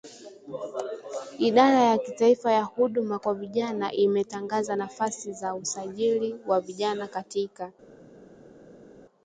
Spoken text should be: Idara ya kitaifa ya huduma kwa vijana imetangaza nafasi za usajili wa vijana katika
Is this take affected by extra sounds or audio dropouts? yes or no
no